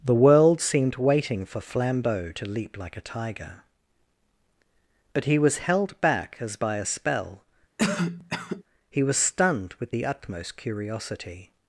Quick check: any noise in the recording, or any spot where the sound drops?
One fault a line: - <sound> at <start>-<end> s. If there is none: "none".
- cough at 7.8-8.6 s